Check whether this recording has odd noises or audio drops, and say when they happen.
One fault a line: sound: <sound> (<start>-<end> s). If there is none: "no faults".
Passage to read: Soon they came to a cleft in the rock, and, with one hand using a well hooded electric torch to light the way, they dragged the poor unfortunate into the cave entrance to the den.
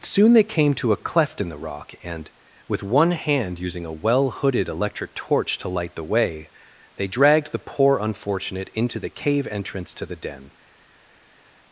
no faults